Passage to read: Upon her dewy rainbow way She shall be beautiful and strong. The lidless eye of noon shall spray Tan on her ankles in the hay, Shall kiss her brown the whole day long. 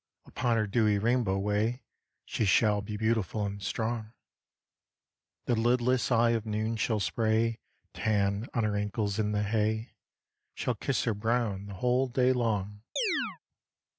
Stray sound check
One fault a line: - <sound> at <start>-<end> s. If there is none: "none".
- chirp at 13.0-13.4 s